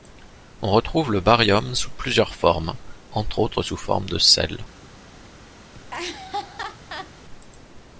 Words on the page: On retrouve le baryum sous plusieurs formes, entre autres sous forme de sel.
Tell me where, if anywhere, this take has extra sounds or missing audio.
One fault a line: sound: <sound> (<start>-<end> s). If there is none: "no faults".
sound: laugh (5.7-7.1 s)